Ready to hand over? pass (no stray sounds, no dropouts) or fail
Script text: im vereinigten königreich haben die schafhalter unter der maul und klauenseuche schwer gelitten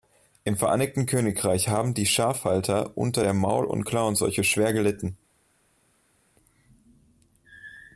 pass